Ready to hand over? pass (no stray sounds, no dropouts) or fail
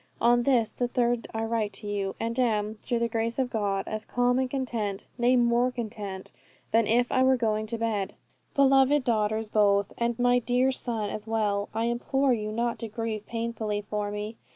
pass